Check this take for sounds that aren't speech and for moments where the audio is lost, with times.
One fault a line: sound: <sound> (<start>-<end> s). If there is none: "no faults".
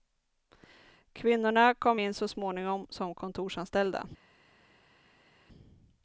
no faults